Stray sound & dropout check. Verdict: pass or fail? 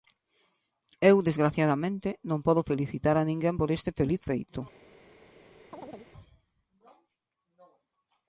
fail